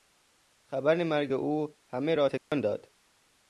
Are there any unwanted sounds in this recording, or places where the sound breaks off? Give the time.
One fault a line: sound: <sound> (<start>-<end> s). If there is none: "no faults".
sound: dropout (2.4-2.5 s)